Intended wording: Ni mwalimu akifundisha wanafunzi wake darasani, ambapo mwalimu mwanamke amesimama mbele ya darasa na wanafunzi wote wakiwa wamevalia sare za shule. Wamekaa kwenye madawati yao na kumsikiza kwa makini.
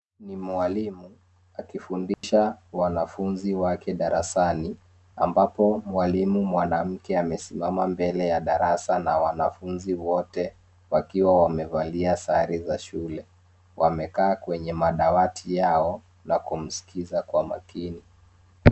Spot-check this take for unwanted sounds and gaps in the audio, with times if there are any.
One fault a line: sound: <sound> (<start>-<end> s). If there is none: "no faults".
sound: dropout (2.1-2.2 s)